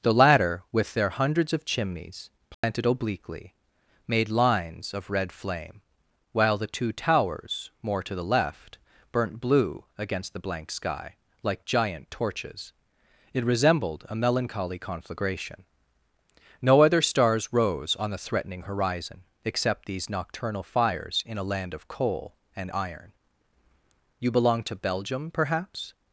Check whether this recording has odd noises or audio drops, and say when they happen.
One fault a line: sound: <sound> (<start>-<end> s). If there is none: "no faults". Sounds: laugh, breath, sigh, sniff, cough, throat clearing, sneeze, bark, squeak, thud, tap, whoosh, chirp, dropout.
sound: dropout (2.5-2.6 s)